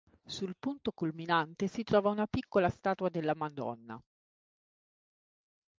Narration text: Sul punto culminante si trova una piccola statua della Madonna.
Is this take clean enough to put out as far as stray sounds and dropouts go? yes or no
yes